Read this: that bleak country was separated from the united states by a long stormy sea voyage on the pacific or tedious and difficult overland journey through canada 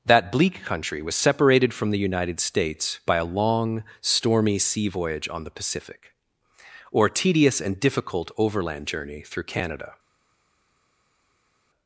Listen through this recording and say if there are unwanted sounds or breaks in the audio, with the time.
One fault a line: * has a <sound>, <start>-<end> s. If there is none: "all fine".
all fine